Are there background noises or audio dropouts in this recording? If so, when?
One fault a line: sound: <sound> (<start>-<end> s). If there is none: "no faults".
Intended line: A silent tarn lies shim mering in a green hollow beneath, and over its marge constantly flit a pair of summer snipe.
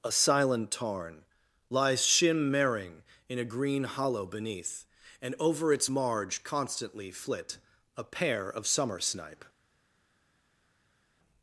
no faults